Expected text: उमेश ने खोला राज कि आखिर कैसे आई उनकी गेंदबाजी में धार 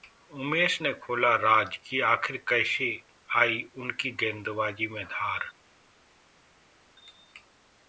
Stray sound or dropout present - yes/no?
no